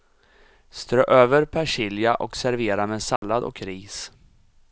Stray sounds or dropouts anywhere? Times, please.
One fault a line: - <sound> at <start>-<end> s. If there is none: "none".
- dropout at 3.2-3.2 s